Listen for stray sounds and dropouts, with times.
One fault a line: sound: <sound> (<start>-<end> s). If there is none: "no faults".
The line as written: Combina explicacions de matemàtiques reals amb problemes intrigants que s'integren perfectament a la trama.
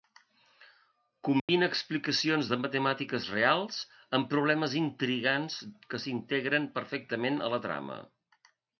sound: dropout (1.4-1.5 s)